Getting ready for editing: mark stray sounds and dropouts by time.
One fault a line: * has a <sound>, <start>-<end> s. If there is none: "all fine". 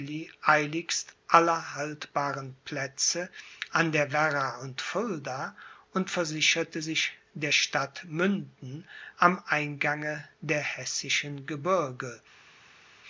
all fine